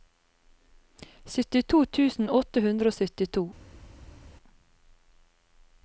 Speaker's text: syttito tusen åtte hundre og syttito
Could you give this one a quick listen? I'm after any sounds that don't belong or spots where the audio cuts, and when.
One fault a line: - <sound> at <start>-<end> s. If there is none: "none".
none